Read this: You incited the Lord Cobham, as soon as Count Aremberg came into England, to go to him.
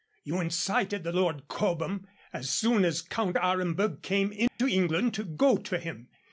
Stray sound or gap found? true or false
true